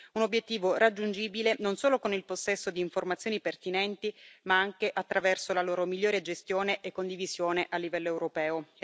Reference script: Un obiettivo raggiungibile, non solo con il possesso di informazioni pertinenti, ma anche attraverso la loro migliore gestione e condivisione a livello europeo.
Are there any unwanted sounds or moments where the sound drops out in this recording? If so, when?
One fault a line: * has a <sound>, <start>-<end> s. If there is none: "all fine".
all fine